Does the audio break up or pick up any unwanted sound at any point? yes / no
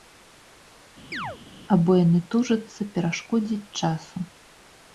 yes